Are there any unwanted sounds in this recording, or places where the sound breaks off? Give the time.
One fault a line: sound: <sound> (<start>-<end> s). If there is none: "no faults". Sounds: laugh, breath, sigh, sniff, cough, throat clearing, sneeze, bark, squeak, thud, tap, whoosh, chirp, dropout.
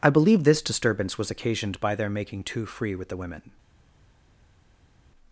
no faults